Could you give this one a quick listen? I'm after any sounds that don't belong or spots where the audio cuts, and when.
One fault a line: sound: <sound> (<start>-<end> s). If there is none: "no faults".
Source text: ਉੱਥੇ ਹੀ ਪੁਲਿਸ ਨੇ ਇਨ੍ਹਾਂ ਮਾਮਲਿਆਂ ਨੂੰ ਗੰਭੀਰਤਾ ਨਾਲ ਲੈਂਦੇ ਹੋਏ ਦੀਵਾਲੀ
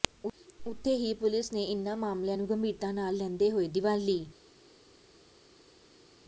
no faults